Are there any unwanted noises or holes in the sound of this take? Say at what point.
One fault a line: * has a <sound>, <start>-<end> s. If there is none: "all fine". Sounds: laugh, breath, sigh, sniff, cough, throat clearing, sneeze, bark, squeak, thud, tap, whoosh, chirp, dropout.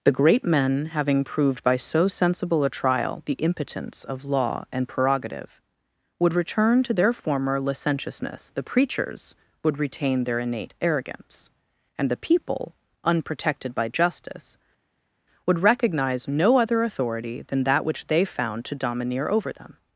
all fine